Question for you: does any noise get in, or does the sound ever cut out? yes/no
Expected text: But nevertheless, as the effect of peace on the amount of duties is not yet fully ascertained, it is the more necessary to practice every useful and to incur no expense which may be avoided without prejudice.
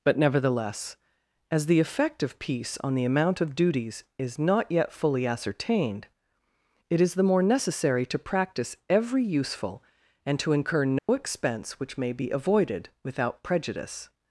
yes